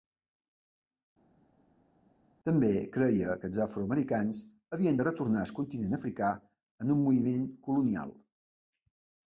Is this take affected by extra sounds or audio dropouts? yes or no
no